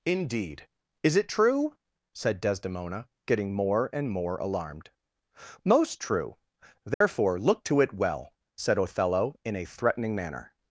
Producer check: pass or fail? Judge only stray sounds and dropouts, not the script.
fail